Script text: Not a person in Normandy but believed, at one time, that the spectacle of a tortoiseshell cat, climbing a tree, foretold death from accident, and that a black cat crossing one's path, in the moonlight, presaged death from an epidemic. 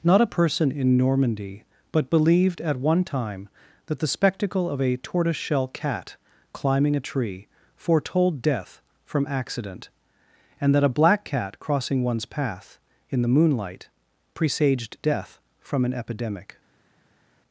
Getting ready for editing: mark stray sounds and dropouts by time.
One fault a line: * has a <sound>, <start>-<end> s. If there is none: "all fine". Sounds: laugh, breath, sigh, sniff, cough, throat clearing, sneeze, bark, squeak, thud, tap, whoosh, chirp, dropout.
all fine